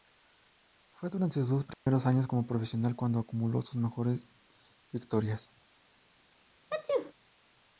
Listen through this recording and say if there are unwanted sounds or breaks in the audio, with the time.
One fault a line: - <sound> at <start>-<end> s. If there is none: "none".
- dropout at 1.7-1.9 s
- sneeze at 6.7-7.1 s